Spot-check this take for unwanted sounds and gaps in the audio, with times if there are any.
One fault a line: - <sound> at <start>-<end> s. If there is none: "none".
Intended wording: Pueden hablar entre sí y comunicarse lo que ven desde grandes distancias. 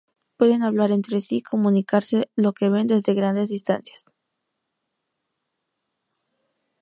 none